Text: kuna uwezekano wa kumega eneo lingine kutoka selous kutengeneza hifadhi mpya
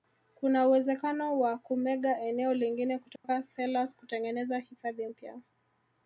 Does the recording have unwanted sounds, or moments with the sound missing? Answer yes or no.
yes